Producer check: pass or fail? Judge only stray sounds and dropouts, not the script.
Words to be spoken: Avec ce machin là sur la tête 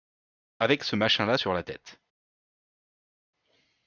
pass